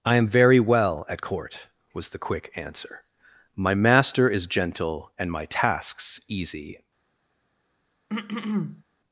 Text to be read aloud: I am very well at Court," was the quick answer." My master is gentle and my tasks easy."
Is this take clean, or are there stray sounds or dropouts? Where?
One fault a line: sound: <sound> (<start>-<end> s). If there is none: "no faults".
sound: throat clearing (8.1-8.8 s)